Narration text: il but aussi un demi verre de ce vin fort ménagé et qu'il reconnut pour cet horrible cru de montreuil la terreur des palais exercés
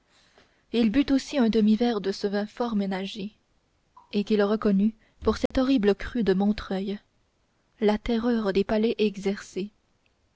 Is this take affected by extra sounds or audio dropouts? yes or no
yes